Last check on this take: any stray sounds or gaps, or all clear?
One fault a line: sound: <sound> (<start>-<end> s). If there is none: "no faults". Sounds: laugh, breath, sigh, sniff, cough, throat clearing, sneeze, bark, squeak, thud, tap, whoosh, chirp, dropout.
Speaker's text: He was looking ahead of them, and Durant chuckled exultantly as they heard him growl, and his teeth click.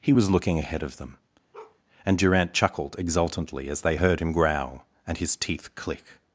sound: bark (1.5-1.8 s)